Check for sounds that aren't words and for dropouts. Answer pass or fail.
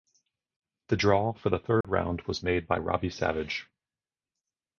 fail